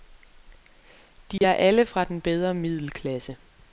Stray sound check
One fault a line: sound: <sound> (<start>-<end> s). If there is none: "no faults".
sound: dropout (1.4-1.4 s)